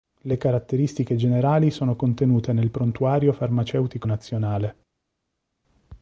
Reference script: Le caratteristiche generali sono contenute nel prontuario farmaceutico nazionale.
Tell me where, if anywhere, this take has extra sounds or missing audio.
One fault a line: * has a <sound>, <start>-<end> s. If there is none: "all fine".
all fine